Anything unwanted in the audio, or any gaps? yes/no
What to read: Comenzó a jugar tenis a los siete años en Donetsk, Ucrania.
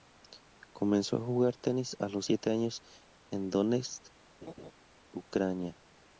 yes